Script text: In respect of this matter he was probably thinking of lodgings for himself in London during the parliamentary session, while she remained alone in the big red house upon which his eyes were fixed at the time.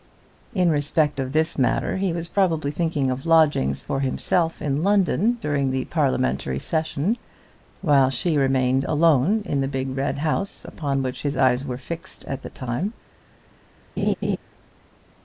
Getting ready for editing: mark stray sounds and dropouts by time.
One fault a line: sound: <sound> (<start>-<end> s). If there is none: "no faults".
sound: laugh (14.0-14.4 s)